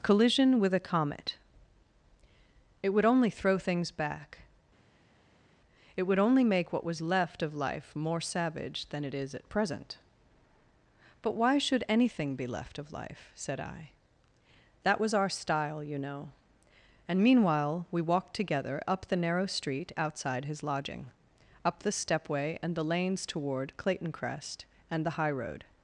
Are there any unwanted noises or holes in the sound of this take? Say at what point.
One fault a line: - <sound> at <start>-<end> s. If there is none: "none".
none